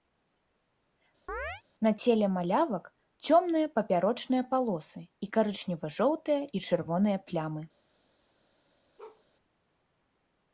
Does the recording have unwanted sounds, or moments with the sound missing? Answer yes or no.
yes